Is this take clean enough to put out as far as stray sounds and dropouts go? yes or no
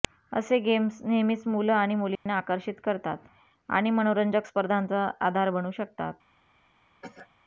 no